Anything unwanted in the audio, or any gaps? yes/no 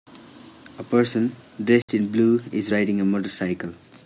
yes